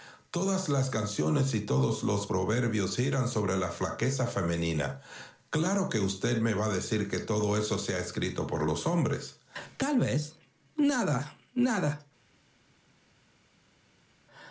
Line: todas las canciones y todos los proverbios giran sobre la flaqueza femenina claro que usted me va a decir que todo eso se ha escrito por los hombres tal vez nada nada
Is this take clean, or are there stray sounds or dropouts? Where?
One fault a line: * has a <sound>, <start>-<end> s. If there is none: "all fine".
all fine